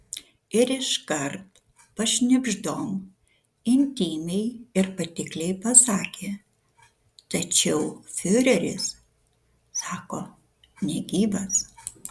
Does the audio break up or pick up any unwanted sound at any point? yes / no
no